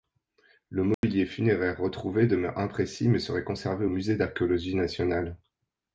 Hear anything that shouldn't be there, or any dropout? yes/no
yes